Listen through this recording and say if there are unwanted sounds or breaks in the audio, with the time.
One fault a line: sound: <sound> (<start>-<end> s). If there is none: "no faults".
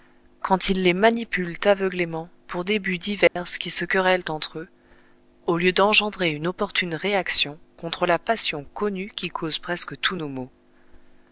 sound: dropout (3.3-3.4 s)